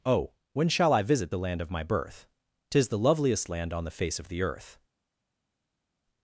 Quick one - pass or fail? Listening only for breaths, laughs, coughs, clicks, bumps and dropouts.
pass